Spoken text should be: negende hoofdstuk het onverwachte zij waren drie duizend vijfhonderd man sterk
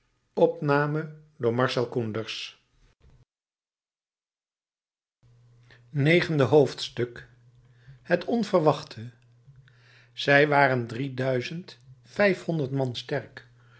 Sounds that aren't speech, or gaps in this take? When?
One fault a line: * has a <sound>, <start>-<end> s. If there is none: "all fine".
all fine